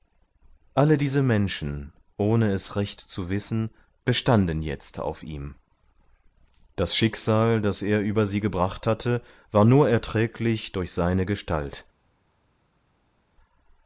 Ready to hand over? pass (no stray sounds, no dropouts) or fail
pass